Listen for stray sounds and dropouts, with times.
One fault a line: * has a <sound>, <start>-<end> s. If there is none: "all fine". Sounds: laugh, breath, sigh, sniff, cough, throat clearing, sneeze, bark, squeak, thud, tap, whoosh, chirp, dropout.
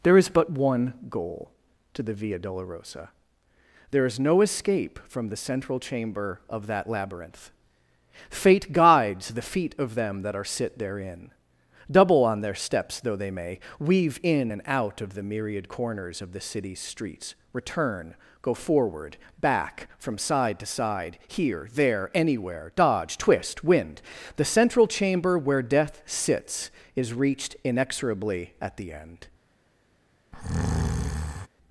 * has a breath, 30.3-31.5 s